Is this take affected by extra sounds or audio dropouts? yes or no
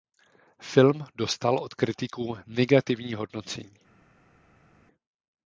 no